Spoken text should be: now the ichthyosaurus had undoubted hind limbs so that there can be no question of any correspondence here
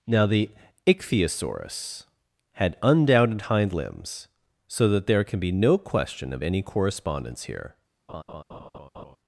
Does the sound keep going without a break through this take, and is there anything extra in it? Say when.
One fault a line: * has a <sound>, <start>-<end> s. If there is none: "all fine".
* has a laugh, 8.1-9.2 s